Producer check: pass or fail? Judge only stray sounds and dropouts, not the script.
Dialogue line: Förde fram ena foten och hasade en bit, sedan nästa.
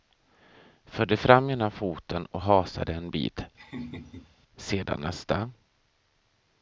fail